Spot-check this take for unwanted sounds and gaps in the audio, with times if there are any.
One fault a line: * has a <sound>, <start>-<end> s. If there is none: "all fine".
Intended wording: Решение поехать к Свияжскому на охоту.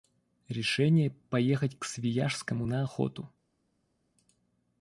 all fine